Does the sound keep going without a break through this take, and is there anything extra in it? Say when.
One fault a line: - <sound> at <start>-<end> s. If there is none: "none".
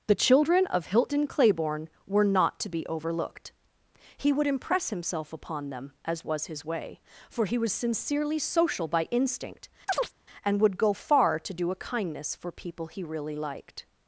- chirp at 9.9-10.1 s